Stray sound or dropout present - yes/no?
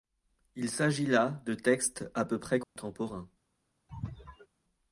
yes